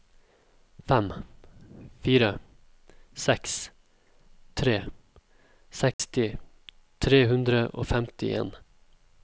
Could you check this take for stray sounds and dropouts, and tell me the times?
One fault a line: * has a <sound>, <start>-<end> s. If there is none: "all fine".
* has a dropout, 5.9-6.0 s